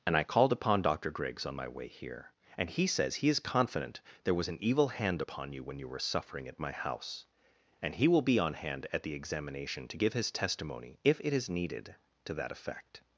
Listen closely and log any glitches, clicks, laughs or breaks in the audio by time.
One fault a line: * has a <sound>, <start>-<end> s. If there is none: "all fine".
all fine